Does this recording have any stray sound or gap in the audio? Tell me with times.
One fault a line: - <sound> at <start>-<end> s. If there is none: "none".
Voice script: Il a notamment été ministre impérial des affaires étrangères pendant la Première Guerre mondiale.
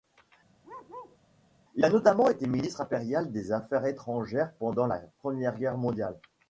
- bark at 0.6-1.2 s